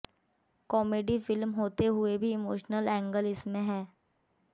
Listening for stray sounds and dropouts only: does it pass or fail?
pass